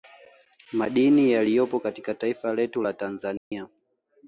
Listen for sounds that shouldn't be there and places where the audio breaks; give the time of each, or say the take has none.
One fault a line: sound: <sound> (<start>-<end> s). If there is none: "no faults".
sound: dropout (3.4-3.5 s)